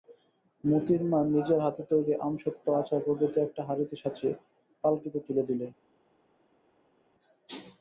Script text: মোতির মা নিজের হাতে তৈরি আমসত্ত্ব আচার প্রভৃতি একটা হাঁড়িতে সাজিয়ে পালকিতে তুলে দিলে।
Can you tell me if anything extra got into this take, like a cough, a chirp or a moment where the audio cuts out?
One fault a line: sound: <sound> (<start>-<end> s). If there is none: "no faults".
no faults